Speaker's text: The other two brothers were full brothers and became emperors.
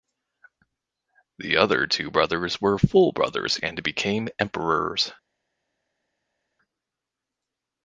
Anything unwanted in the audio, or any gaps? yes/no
no